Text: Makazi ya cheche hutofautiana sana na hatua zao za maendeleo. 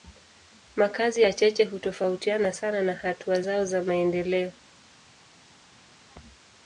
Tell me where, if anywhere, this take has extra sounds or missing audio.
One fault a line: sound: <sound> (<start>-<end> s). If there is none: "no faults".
no faults